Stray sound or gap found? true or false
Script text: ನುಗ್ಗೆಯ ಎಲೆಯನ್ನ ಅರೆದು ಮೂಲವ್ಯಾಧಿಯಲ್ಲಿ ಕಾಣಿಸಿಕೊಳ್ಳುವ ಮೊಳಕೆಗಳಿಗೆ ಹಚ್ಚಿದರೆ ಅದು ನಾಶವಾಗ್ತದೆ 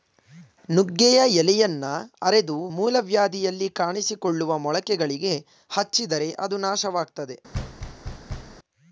true